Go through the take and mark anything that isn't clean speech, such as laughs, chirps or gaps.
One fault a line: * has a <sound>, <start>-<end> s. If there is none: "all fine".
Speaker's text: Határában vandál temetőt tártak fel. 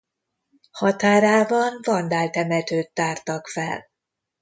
all fine